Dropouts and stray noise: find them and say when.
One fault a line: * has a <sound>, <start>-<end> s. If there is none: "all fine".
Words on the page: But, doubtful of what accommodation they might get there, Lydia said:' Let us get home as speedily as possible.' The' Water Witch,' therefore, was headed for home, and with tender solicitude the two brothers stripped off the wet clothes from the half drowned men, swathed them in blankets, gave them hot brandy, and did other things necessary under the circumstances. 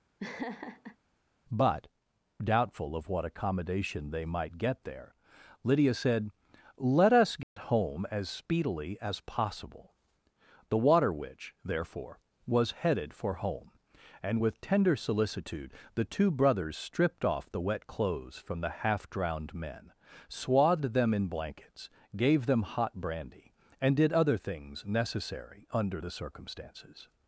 * has a laugh, 0.2-1.0 s
* has a dropout, 7.4-7.6 s